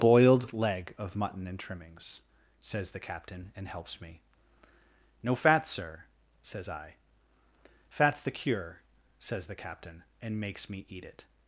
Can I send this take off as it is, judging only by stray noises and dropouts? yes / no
yes